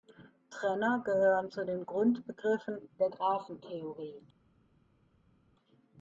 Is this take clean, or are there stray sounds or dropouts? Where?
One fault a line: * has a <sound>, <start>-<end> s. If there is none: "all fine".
all fine